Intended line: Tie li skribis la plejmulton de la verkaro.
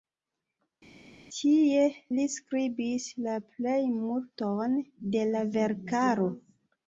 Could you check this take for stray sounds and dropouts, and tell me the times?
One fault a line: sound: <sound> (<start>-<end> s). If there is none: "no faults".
no faults